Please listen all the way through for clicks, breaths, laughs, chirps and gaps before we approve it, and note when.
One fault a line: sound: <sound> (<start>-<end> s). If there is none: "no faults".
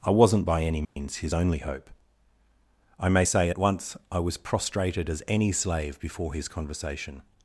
sound: dropout (0.8-1.0 s)